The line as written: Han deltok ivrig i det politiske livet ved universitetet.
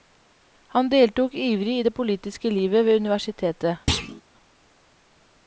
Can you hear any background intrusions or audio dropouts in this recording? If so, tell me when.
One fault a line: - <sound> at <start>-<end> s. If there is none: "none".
- thud at 3.9-4.2 s